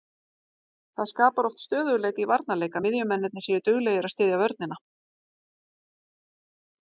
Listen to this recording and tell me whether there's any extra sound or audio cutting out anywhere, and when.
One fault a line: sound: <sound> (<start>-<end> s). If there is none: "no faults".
no faults